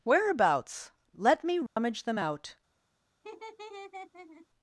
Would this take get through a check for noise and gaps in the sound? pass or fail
fail